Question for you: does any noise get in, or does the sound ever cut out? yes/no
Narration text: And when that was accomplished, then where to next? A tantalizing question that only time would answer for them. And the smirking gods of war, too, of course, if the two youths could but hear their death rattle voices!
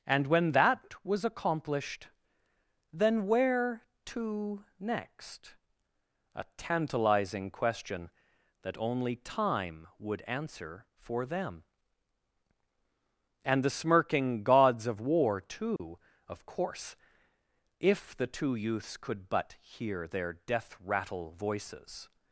yes